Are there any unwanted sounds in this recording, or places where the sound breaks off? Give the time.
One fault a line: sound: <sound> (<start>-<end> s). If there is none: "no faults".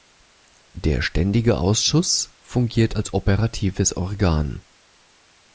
no faults